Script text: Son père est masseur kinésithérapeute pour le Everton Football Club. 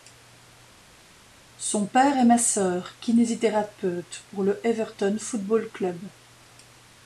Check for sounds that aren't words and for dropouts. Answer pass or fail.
pass